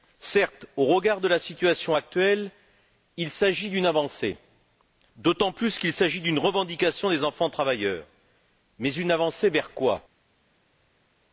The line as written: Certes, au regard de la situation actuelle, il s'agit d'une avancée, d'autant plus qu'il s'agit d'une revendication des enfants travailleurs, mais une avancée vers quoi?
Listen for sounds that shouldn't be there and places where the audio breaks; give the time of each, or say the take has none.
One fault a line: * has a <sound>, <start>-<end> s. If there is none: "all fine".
all fine